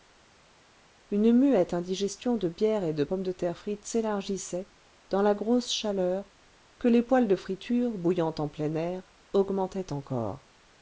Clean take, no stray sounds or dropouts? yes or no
yes